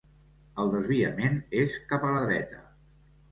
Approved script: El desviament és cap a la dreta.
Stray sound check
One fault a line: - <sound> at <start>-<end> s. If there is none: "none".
none